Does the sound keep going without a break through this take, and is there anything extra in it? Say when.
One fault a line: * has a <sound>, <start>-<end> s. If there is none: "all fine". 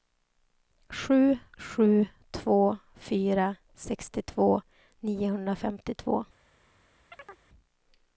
* has a chirp, 7.1-7.5 s